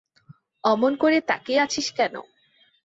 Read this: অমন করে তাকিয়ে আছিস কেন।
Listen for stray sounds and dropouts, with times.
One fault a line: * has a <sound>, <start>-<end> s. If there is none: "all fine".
all fine